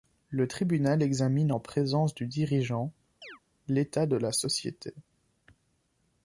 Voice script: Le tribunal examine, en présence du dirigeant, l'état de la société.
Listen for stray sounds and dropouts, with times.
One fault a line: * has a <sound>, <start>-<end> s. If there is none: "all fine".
* has a chirp, 3.2-3.4 s